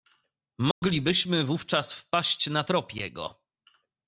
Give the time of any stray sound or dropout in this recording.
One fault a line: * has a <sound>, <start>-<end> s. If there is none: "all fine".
* has a dropout, 0.7-0.8 s